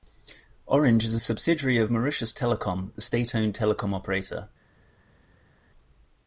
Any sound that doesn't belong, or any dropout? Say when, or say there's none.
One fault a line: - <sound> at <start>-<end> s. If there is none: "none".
none